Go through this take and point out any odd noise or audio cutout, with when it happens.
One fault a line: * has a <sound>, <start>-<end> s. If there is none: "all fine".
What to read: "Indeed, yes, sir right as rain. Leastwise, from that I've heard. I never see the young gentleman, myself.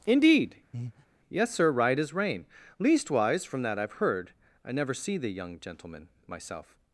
* has a breath, 0.7-1.1 s